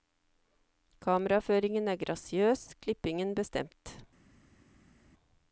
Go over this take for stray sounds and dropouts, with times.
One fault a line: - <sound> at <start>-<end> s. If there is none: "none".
none